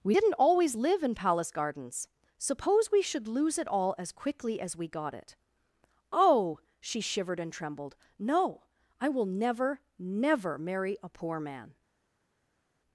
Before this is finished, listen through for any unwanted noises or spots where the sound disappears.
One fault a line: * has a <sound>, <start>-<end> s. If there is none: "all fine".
all fine